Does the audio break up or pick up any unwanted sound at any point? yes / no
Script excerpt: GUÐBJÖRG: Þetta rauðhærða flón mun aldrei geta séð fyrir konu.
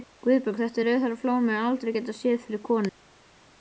no